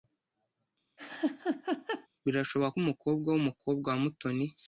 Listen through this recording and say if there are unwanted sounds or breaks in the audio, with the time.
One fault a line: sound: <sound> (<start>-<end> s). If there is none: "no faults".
sound: laugh (1.0-2.1 s)